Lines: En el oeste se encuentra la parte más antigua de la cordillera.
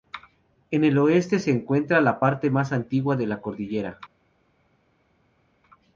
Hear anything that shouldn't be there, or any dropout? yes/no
no